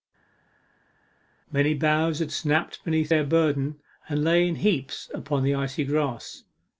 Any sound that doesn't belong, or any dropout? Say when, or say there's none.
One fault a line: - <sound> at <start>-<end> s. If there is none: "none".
none